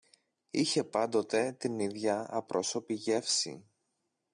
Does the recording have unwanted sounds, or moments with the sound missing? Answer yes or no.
no